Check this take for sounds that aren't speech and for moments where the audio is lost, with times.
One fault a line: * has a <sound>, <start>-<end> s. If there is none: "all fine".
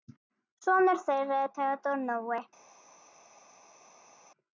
all fine